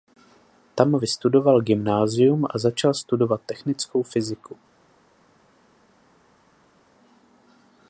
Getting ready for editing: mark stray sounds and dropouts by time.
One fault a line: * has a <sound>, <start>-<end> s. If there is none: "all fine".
all fine